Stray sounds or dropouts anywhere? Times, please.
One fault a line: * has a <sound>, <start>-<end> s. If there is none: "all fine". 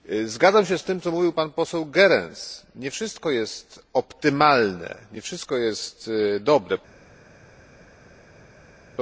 all fine